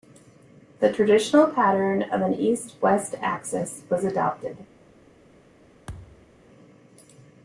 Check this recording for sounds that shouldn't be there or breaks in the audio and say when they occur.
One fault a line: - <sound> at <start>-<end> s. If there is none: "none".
- thud at 5.9-6.3 s